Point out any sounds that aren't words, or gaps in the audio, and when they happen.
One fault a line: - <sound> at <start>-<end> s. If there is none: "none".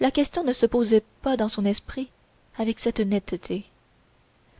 none